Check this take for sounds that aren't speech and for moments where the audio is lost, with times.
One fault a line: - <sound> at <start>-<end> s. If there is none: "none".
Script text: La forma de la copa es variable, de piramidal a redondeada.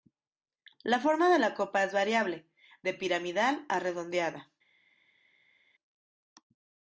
none